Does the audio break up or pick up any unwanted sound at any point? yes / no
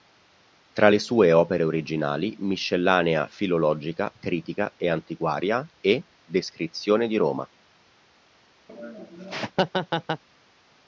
yes